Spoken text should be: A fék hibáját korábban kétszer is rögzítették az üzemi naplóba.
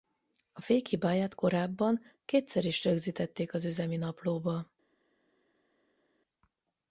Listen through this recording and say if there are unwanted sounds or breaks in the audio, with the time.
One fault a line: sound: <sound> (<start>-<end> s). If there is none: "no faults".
no faults